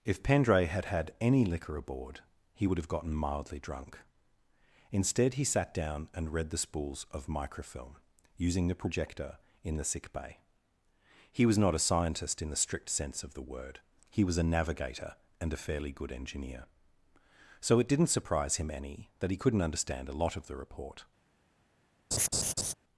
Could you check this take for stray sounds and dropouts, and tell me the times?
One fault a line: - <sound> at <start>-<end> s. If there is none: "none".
- laugh at 22.1-22.7 s